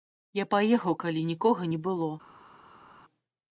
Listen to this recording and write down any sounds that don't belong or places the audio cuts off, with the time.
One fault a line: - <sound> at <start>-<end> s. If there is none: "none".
none